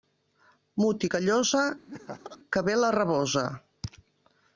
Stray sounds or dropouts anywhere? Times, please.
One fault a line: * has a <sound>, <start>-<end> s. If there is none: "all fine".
* has a laugh, 1.9-2.4 s